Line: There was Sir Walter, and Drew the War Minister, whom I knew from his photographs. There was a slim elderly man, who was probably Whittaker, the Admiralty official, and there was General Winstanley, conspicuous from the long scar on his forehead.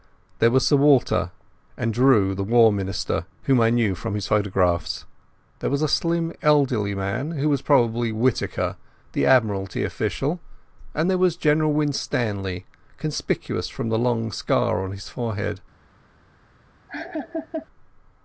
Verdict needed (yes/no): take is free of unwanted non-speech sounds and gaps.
no